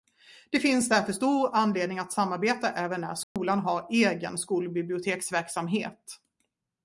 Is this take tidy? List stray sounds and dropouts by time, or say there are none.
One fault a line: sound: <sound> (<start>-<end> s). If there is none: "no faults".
sound: dropout (3.2-3.4 s)